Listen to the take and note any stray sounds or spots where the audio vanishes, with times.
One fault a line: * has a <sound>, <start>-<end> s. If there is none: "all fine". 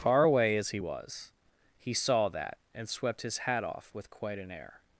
all fine